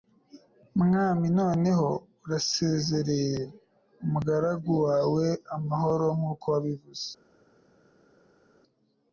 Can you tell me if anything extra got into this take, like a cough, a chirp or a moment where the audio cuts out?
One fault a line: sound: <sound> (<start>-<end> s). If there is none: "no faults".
no faults